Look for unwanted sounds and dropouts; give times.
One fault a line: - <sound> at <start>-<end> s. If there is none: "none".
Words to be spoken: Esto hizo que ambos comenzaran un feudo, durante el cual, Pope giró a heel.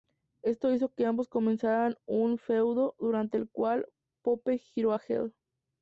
none